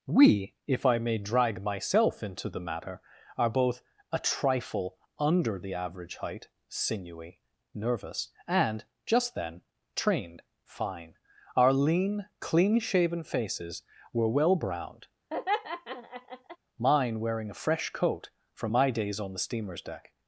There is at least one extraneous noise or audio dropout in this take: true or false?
true